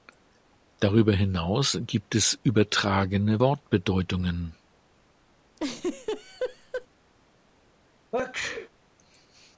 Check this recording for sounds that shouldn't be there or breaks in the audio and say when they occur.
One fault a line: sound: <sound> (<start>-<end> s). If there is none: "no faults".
sound: laugh (5.6-6.9 s)
sound: sneeze (8.1-8.7 s)